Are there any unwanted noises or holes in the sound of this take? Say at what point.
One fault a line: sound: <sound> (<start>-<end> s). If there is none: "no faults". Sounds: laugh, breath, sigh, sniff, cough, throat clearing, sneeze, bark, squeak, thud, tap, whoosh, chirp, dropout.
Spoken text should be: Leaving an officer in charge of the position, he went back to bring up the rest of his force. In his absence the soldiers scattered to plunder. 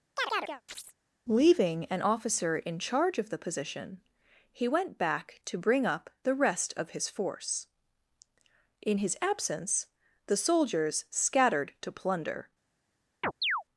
sound: chirp (0.2-0.9 s)
sound: chirp (13.2-13.6 s)